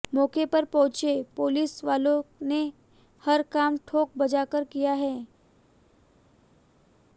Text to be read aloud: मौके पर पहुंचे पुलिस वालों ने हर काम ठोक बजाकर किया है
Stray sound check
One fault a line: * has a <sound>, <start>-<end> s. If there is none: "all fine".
all fine